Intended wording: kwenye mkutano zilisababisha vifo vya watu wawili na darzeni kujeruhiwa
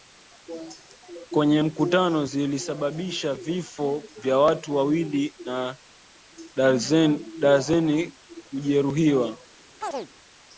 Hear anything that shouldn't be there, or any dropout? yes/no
yes